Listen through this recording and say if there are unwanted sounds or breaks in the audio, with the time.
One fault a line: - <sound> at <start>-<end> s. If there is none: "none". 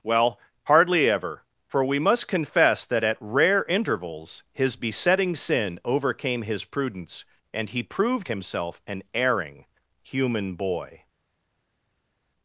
none